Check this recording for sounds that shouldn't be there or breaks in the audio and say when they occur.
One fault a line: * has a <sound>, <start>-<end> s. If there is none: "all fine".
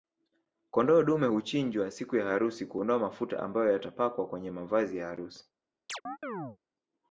* has a chirp, 5.9-6.6 s